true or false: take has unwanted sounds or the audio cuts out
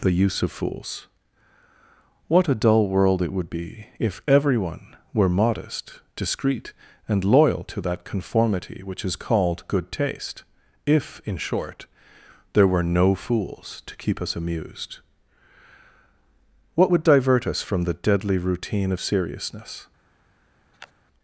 true